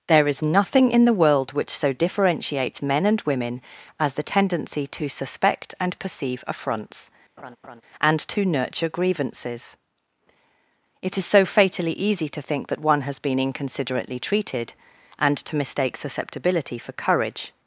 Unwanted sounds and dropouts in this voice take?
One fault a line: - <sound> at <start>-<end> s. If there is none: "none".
- laugh at 7.4-7.8 s